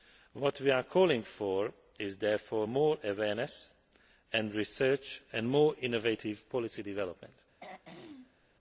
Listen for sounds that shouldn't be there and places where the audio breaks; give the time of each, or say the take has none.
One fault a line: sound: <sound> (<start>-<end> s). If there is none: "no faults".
sound: throat clearing (7.6-8.5 s)